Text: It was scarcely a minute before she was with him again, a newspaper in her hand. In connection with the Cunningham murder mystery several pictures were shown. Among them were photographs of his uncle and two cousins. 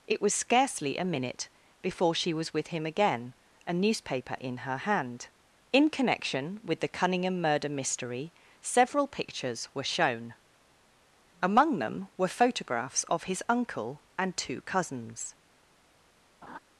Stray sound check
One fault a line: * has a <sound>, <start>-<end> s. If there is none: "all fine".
* has a laugh, 16.4-16.6 s